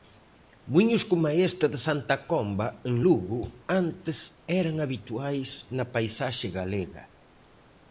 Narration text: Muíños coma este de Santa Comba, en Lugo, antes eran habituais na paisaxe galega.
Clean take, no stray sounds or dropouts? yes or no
yes